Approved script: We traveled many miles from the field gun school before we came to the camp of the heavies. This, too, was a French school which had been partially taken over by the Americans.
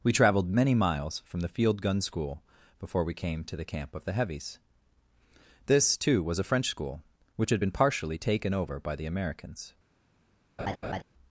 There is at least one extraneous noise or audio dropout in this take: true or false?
true